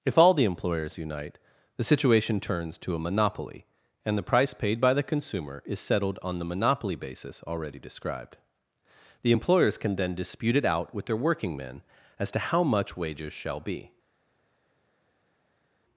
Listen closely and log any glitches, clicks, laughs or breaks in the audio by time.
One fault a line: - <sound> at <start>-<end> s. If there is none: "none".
none